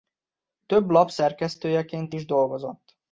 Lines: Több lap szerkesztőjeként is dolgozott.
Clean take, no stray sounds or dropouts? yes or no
yes